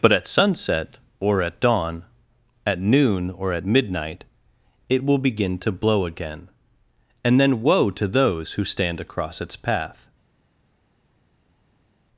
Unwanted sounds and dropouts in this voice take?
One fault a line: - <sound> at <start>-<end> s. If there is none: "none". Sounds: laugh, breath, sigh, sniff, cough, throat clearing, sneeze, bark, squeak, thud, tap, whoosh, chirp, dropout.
none